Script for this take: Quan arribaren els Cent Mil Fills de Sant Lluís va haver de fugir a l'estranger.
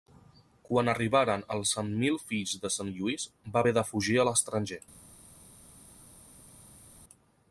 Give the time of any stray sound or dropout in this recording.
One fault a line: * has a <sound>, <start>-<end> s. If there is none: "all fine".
all fine